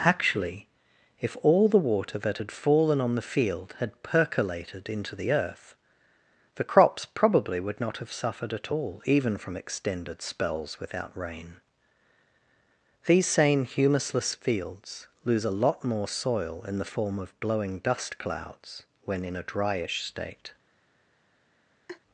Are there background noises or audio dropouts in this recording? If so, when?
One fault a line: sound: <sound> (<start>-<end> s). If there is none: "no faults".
sound: laugh (21.9-22.0 s)